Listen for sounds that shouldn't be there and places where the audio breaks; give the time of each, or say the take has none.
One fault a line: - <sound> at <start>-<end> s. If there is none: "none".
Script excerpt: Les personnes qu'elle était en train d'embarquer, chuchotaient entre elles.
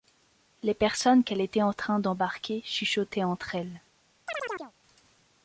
- chirp at 4.3-4.7 s